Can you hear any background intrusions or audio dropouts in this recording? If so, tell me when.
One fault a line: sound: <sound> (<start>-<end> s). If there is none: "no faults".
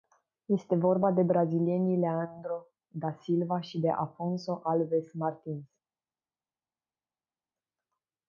no faults